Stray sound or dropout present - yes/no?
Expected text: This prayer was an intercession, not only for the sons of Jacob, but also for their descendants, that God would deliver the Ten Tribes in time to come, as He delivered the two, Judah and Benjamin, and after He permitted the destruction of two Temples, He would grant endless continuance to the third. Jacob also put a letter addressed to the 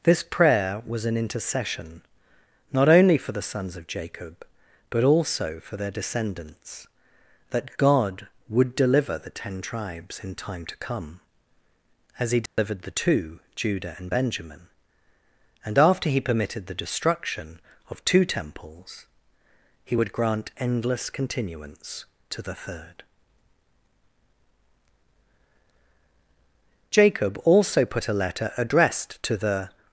yes